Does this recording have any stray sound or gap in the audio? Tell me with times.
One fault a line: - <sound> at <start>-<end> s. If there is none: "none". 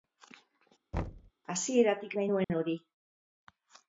- thud at 0.9-1.3 s
- dropout at 2.4-2.5 s